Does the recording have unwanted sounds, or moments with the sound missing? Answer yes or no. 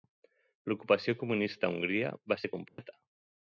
yes